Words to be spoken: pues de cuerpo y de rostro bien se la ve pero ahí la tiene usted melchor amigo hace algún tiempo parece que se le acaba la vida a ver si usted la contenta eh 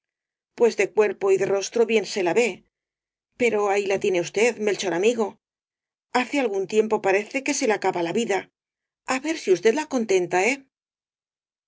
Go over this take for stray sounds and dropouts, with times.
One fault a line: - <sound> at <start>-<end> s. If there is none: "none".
none